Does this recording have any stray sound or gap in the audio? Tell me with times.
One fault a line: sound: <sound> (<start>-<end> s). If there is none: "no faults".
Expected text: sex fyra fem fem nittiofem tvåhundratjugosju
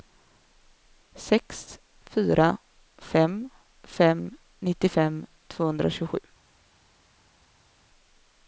no faults